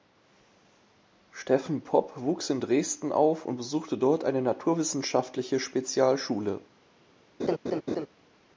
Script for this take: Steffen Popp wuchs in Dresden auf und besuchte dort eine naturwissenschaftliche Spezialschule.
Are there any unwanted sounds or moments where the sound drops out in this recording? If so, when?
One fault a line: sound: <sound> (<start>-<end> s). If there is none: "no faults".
sound: laugh (7.4-8.1 s)